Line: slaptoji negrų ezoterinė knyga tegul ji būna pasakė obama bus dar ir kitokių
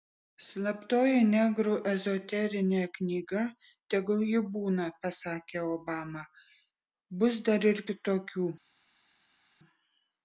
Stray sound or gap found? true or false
false